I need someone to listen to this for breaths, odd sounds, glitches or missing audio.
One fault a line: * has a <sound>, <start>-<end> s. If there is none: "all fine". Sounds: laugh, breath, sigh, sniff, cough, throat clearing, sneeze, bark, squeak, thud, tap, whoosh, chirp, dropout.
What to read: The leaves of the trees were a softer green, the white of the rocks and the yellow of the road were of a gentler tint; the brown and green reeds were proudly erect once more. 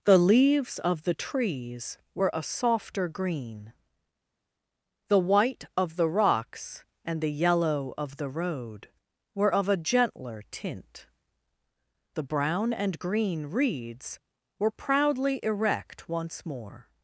all fine